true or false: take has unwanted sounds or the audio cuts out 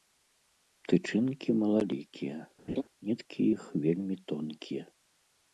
true